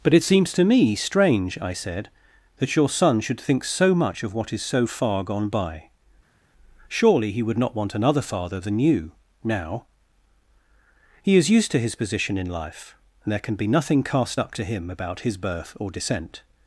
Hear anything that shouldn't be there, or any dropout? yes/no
no